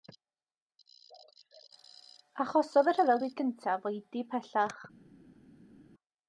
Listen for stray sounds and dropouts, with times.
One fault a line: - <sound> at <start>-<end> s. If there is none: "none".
none